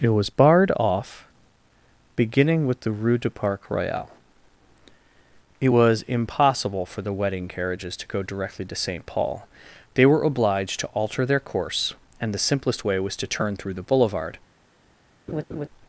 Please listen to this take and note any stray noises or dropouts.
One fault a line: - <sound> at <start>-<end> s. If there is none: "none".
- laugh at 15.3-15.7 s